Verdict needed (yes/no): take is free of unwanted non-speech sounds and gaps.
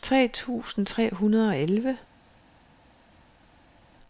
yes